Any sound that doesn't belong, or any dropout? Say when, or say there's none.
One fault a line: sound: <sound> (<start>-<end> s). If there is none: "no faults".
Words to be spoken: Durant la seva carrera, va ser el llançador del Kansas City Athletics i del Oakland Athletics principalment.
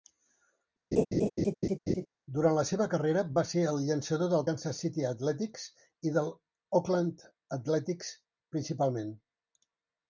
sound: laugh (0.9-2.1 s)